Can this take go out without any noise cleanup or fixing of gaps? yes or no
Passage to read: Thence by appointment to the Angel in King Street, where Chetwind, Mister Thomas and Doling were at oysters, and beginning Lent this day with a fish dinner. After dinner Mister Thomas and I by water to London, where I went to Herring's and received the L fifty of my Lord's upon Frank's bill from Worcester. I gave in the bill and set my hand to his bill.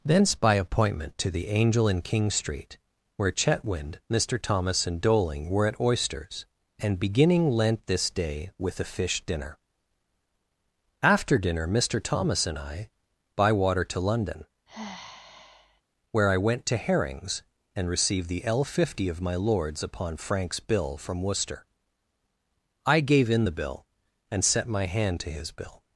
no